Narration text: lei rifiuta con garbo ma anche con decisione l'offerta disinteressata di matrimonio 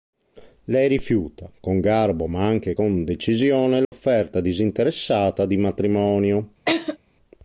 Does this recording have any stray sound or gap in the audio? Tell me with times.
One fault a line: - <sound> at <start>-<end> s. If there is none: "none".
- dropout at 3.8-3.9 s
- laugh at 6.7-7.0 s